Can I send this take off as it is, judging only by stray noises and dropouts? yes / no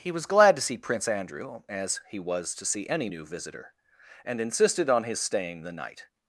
yes